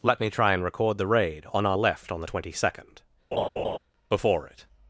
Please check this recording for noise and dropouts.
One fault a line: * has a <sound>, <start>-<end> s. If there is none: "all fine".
* has a laugh, 3.3-3.8 s